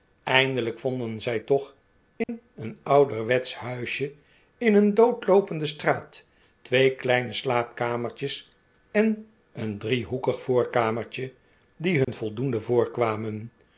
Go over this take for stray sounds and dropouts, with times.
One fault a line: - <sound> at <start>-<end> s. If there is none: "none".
- dropout at 2.2-2.3 s
- dropout at 12.0-12.1 s